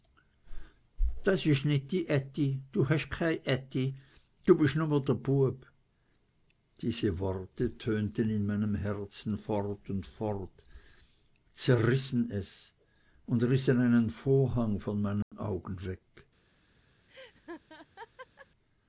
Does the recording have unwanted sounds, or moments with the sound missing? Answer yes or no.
yes